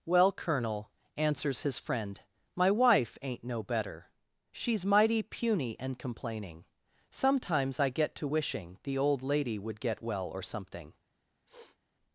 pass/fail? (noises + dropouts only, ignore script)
fail